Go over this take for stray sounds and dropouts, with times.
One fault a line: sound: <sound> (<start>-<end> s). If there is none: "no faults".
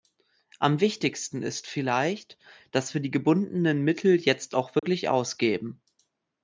sound: dropout (4.8-4.8 s)